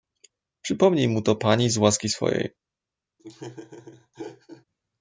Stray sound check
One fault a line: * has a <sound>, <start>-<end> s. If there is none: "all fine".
* has a laugh, 3.2-4.6 s